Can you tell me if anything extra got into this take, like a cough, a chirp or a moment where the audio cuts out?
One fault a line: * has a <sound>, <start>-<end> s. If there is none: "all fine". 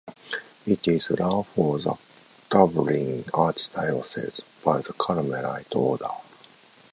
all fine